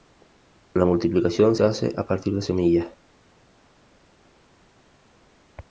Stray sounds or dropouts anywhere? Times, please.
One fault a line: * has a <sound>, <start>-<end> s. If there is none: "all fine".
all fine